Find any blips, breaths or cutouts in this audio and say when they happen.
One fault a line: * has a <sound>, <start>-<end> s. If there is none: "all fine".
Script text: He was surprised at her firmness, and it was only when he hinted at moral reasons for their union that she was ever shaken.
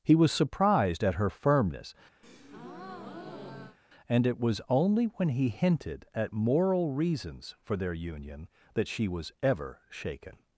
* has a breath, 2.2-3.8 s